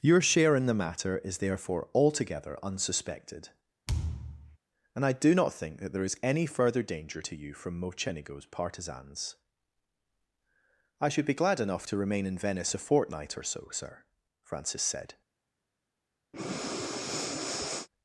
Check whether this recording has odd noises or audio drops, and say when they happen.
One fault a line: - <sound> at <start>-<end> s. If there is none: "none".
- thud at 3.9-4.6 s
- breath at 16.3-17.9 s